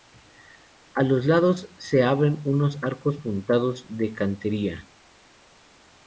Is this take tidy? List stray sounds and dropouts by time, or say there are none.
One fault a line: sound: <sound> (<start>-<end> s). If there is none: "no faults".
no faults